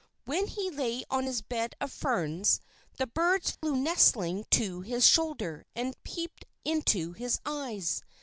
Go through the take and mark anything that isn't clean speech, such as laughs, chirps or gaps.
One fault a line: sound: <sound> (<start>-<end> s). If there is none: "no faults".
sound: dropout (3.5-3.6 s)